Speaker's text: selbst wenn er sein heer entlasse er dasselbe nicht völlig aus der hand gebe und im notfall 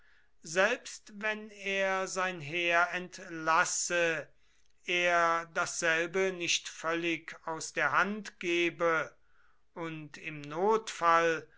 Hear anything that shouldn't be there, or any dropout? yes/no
no